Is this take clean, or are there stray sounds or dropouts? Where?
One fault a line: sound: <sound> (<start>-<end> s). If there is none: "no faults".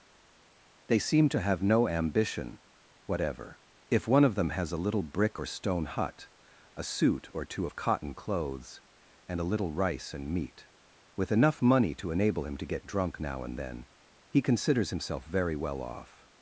no faults